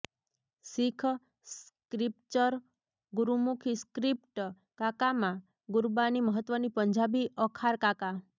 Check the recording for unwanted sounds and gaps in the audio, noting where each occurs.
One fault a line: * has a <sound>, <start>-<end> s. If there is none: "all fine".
all fine